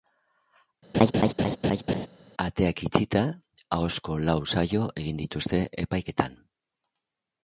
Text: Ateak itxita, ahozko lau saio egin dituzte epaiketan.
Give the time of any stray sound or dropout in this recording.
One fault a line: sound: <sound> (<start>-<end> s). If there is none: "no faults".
sound: laugh (0.9-2.1 s)